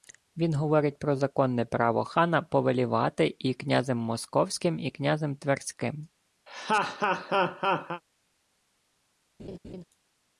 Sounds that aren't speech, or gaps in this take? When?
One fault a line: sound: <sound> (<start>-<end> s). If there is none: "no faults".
sound: laugh (6.5-8.0 s)
sound: laugh (9.4-9.8 s)